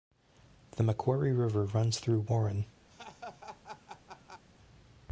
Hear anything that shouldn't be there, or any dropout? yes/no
yes